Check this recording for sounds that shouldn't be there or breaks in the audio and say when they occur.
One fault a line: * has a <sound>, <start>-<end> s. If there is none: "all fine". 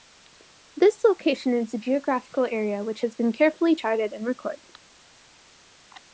all fine